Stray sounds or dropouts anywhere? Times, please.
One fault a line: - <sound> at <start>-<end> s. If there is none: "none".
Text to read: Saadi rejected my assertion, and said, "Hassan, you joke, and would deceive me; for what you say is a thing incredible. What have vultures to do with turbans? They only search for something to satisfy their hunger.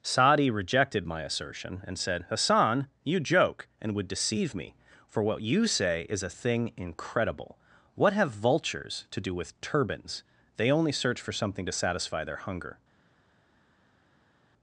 none